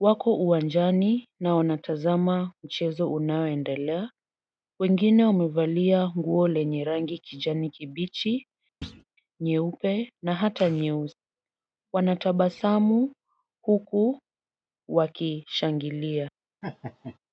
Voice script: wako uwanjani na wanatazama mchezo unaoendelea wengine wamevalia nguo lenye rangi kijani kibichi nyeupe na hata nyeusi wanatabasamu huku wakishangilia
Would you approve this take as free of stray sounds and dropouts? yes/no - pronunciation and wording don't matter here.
no